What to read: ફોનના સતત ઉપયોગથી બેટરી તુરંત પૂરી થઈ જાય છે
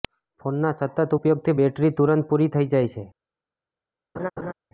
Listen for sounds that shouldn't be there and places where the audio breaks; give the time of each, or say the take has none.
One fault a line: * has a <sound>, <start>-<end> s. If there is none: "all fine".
* has a laugh, 4.2-4.5 s